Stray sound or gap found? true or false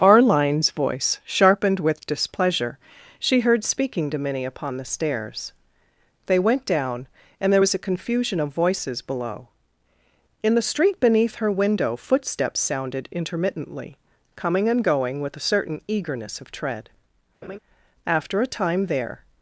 true